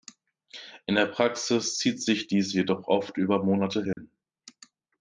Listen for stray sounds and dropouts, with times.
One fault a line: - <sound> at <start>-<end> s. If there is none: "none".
- dropout at 3.9-4.0 s